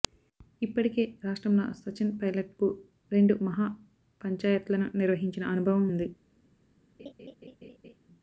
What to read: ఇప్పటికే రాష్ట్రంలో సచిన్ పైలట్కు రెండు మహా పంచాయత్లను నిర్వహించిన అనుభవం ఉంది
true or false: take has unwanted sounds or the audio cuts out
true